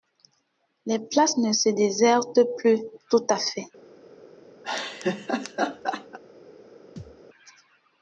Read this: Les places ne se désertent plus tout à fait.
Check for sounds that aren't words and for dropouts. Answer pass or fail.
fail